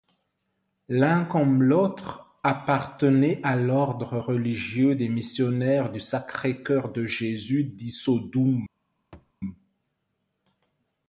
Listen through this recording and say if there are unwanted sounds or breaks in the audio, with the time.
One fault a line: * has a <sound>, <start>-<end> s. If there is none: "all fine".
* has a thud, 9.1-9.3 s